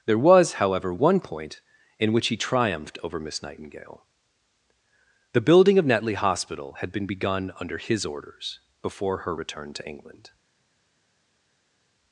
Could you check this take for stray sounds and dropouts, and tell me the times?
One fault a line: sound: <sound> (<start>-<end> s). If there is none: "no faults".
no faults